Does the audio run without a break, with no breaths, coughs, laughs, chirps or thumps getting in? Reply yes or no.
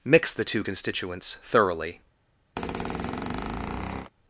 no